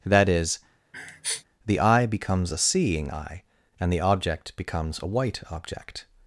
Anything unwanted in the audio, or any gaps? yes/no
yes